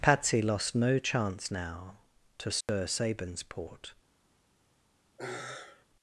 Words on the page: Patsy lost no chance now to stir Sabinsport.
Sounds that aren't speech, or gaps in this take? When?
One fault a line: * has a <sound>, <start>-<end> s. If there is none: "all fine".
* has a dropout, 2.6-2.7 s
* has a sigh, 5.2-5.9 s